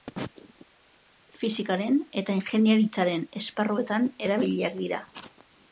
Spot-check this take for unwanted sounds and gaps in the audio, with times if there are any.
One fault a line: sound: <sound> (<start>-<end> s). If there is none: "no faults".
no faults